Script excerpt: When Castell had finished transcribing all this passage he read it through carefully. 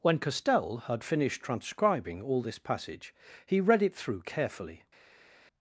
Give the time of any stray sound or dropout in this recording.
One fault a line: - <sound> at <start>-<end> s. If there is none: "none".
none